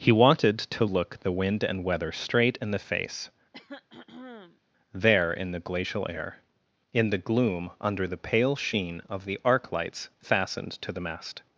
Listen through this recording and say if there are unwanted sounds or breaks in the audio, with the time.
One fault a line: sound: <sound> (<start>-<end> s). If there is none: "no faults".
sound: throat clearing (3.5-4.6 s)